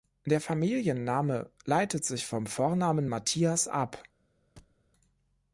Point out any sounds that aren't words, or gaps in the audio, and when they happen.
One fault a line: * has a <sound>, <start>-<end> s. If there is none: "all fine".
* has a thud, 4.6-4.8 s